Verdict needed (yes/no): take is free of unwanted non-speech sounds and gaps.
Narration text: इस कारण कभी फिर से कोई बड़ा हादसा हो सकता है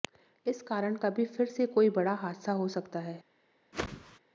no